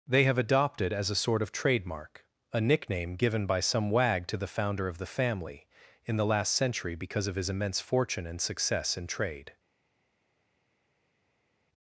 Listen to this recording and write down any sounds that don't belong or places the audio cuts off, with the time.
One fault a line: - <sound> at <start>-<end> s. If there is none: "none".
none